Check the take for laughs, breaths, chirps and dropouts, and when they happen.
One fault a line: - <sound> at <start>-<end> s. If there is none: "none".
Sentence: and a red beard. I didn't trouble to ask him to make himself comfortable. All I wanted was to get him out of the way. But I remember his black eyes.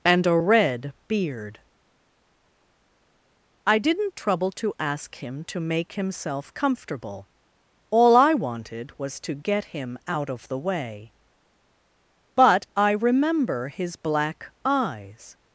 none